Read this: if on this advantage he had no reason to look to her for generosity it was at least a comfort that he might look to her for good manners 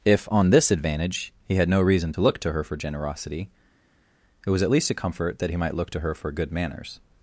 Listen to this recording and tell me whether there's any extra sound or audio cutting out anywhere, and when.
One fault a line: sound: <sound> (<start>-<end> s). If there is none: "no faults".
no faults